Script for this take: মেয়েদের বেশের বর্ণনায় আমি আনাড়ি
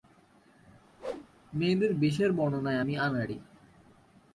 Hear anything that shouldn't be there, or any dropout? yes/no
yes